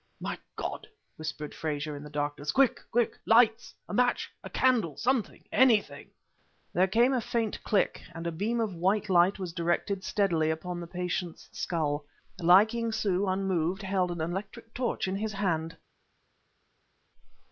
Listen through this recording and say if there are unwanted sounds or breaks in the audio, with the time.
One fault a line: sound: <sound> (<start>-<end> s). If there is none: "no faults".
no faults